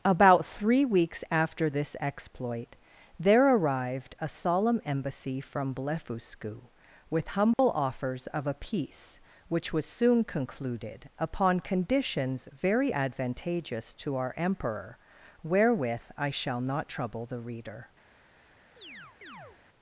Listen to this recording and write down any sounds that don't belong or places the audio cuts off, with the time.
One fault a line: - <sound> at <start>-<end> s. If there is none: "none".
- dropout at 7.5-7.6 s
- chirp at 18.8-19.6 s